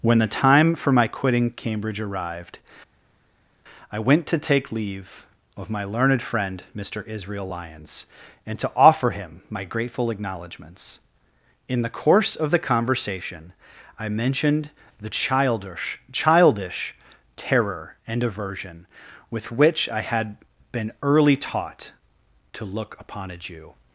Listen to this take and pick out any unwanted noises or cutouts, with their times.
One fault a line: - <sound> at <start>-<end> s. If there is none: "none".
none